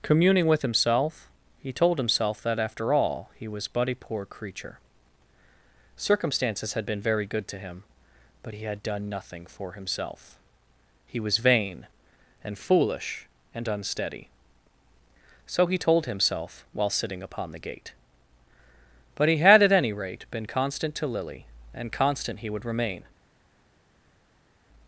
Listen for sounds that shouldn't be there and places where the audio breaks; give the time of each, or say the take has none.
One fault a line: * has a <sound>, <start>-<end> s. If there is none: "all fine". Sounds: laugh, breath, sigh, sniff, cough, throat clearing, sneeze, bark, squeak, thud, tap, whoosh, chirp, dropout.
all fine